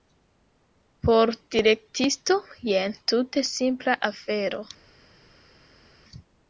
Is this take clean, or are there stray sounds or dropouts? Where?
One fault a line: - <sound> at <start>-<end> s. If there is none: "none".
none